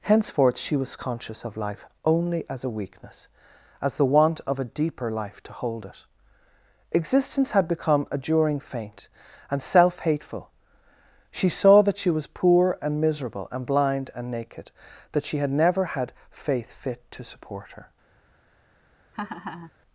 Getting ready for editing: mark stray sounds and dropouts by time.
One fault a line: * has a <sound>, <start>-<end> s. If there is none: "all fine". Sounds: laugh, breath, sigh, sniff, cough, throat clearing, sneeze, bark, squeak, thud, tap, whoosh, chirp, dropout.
* has a laugh, 19.1-19.7 s